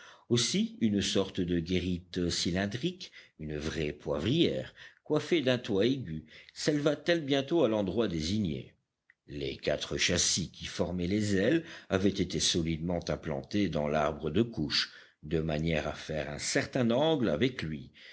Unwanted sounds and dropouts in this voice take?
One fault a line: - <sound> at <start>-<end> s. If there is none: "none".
none